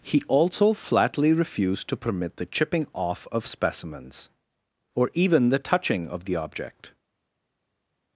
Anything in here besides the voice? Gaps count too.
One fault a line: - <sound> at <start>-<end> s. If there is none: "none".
none